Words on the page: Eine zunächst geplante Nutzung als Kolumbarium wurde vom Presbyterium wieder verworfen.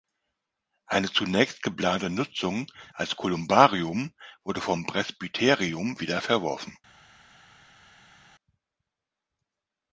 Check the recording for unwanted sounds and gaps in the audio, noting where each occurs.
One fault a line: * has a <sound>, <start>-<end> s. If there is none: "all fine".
all fine